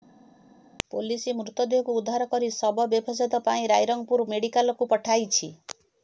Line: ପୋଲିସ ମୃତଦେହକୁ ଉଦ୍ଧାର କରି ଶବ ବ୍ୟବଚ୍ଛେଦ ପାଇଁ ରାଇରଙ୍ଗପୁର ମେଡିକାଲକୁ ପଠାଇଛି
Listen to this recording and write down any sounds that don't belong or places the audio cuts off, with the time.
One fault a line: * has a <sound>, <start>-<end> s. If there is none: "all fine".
all fine